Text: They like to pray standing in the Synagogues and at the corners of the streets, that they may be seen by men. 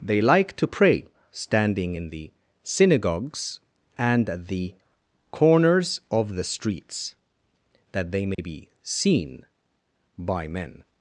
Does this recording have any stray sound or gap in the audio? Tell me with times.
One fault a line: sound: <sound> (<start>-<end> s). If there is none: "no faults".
sound: dropout (8.3-8.4 s)